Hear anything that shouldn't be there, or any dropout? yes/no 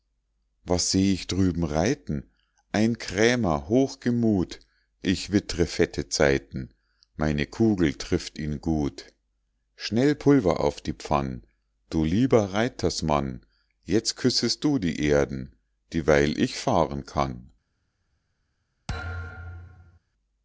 yes